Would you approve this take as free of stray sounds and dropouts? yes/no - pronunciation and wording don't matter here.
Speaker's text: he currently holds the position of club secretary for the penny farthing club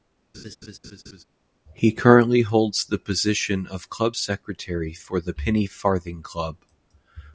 no